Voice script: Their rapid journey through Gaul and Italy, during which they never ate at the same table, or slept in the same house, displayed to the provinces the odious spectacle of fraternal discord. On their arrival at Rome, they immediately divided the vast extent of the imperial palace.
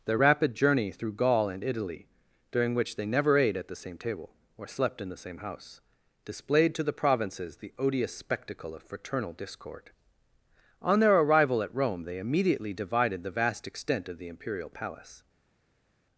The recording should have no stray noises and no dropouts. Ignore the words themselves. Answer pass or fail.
pass